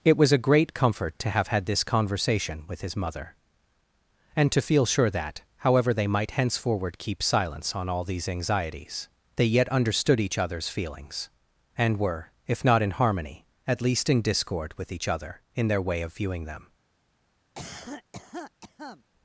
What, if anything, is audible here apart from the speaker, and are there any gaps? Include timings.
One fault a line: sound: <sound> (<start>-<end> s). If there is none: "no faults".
sound: cough (17.6-19.0 s)